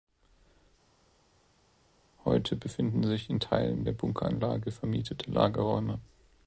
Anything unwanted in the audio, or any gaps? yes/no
no